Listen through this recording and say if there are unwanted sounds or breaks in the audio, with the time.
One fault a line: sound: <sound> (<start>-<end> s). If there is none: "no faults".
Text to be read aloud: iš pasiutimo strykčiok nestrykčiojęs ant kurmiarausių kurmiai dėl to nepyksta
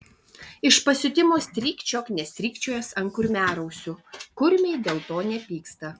no faults